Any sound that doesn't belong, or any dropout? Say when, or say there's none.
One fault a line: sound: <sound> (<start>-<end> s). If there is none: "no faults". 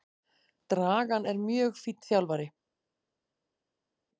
no faults